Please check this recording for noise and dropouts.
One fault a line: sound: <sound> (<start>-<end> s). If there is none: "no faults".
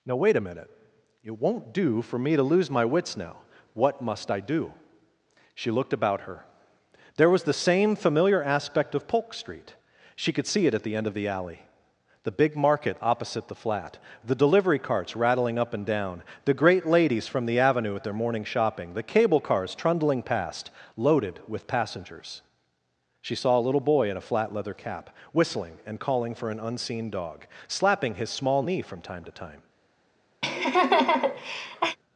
sound: laugh (30.4-32.0 s)